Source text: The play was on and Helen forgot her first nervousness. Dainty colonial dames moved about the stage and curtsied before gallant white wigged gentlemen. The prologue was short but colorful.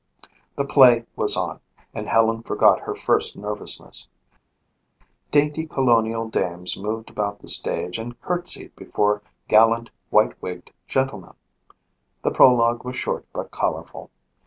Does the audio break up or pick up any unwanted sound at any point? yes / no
no